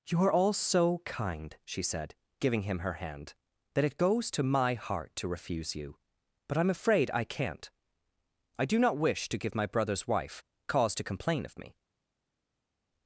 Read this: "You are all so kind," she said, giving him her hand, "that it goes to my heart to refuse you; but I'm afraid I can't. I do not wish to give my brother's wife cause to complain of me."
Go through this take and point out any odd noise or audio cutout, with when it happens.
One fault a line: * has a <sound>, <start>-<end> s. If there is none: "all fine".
all fine